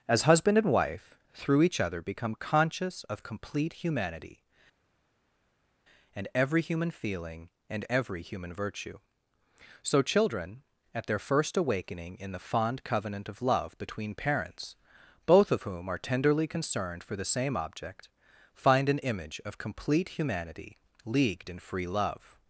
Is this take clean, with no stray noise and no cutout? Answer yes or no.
yes